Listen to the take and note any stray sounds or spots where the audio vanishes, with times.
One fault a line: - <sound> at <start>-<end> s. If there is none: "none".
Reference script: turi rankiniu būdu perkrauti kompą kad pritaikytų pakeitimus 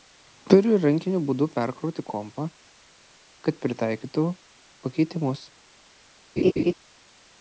- laugh at 6.4-6.7 s